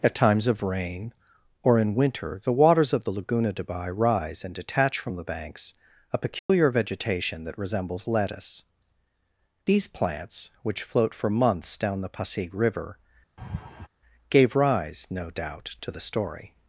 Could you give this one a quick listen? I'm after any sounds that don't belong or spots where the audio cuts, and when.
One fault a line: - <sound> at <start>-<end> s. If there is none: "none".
- dropout at 6.4-6.5 s
- laugh at 13.4-13.9 s